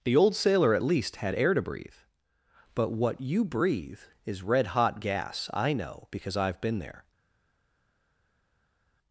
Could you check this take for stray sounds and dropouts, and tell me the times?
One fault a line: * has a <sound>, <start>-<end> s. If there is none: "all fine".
all fine